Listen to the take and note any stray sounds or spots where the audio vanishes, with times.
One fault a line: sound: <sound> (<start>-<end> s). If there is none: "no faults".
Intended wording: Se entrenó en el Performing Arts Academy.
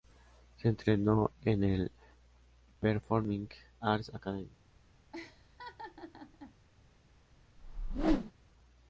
sound: laugh (5.1-6.6 s)
sound: whoosh (7.6-8.3 s)